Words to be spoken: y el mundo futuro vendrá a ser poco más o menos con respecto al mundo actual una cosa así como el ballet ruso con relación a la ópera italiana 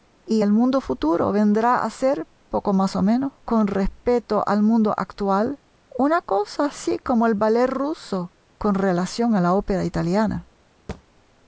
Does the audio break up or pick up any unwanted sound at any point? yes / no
yes